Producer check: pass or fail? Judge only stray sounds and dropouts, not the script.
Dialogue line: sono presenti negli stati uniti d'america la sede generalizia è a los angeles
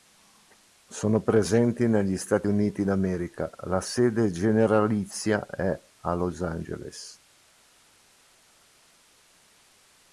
pass